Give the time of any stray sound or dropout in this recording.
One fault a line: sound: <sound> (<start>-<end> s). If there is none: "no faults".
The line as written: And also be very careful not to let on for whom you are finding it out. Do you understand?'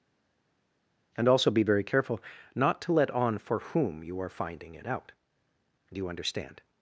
no faults